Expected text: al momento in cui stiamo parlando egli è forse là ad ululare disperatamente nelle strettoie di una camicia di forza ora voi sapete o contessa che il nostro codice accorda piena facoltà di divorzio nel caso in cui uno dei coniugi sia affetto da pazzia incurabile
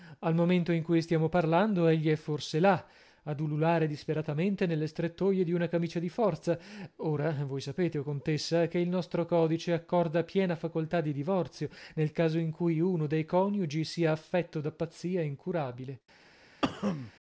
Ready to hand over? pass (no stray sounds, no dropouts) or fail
fail